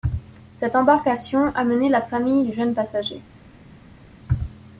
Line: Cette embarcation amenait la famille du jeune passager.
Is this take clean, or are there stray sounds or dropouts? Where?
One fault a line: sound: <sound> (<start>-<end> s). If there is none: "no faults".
no faults